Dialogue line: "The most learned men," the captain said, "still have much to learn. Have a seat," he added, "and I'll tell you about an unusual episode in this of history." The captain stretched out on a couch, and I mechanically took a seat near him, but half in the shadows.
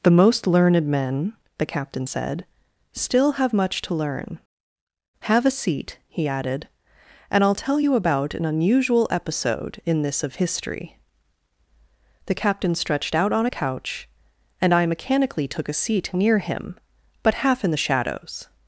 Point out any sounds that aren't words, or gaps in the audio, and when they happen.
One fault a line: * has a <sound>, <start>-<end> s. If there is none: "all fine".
all fine